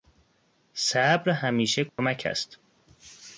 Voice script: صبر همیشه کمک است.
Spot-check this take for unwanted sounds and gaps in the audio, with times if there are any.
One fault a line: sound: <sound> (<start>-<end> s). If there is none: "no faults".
sound: dropout (1.9-2.0 s)